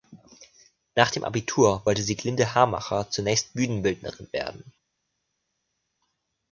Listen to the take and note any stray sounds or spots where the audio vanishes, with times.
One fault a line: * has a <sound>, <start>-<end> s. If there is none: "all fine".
all fine